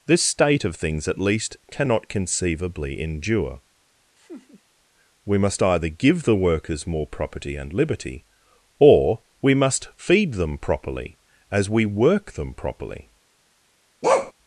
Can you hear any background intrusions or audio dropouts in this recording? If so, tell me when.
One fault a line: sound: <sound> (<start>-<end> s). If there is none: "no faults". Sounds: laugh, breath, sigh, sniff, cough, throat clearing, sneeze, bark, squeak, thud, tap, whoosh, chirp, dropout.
sound: laugh (4.2-4.6 s)
sound: bark (14.0-14.3 s)